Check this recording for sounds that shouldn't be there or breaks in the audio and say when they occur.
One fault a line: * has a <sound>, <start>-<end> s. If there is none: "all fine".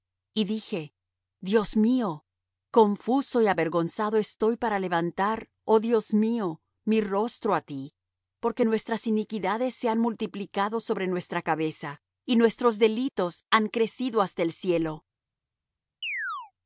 * has a chirp, 16.0-16.5 s